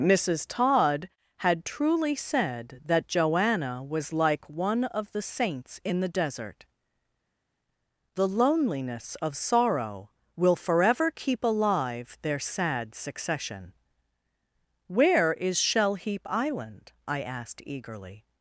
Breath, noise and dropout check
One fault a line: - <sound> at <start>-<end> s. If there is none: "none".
none